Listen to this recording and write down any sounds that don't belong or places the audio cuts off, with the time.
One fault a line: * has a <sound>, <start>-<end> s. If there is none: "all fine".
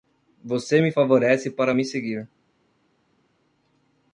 all fine